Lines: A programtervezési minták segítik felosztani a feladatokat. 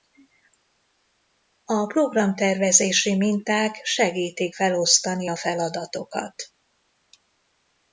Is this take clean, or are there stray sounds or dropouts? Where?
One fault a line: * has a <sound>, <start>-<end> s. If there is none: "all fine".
all fine